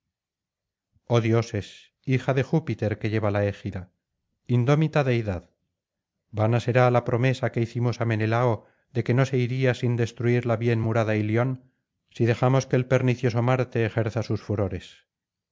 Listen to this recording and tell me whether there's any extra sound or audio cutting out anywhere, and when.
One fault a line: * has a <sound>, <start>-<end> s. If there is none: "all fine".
all fine